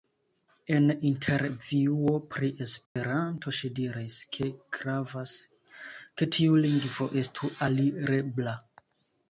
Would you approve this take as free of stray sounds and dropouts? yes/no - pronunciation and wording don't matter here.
no